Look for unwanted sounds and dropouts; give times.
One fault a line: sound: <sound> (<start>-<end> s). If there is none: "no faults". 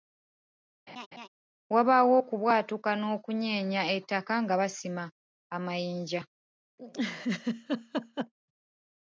sound: laugh (0.9-1.3 s)
sound: laugh (6.8-8.3 s)